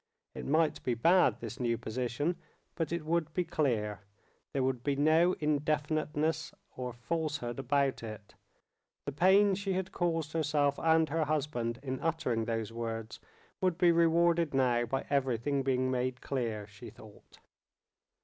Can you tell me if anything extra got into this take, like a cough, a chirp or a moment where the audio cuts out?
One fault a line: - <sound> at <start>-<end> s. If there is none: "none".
none